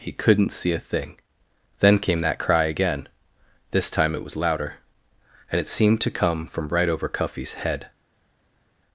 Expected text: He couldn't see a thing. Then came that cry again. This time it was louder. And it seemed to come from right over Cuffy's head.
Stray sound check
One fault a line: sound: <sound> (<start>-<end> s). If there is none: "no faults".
no faults